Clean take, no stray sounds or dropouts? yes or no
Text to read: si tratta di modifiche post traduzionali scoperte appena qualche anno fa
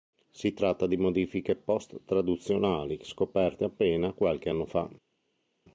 yes